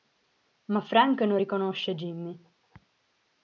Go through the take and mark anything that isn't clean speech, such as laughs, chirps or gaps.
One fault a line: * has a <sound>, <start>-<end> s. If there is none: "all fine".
all fine